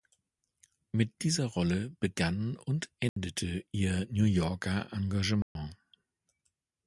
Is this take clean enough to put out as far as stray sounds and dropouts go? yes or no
no